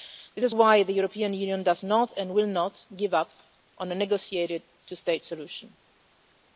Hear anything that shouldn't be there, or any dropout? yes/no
no